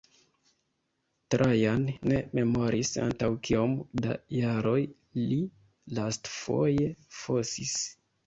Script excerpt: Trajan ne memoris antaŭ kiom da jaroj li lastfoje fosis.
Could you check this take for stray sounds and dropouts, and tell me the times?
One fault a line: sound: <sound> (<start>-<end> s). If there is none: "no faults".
no faults